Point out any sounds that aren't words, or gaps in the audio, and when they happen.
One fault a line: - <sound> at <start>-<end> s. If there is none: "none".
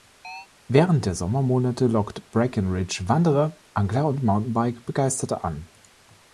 - chirp at 0.2-0.5 s